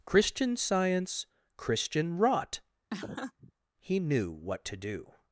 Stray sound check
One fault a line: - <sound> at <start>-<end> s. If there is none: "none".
- laugh at 2.9-3.5 s